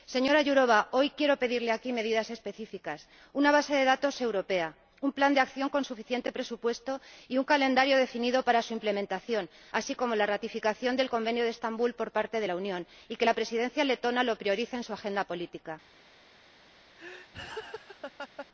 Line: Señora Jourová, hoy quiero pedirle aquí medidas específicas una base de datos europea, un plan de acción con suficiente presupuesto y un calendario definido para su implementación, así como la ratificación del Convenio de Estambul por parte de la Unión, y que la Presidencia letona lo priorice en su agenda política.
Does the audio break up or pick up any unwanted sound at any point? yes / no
yes